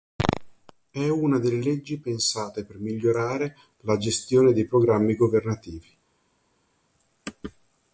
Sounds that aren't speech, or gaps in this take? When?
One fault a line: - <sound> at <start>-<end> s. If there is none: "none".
none